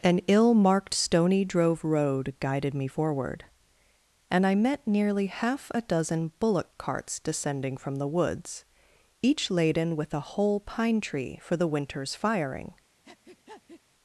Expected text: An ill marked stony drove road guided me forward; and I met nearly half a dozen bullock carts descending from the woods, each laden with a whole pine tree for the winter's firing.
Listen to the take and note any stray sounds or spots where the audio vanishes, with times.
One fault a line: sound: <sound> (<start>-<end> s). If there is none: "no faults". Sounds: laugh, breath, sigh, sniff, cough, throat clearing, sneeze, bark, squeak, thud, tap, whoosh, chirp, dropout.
sound: breath (13.0-13.8 s)